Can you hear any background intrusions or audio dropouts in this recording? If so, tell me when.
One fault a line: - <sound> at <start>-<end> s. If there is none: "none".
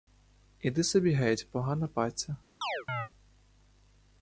- chirp at 2.6-3.1 s